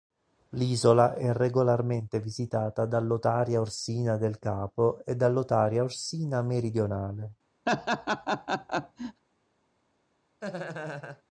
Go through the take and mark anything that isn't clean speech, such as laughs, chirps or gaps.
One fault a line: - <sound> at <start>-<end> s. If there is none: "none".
- laugh at 7.7-9.2 s
- laugh at 10.4-11.2 s